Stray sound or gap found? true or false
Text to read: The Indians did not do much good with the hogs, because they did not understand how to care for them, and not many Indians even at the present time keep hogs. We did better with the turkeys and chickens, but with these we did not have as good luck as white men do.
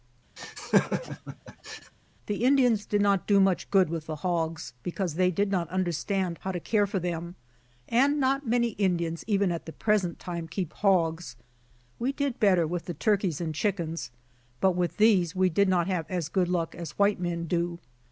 true